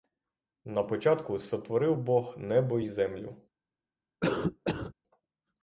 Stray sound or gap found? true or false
true